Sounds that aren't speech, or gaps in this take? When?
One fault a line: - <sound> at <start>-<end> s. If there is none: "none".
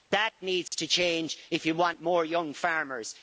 - dropout at 0.7-0.7 s